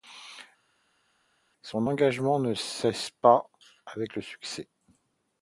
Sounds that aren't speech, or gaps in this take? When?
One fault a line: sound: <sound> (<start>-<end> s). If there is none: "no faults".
no faults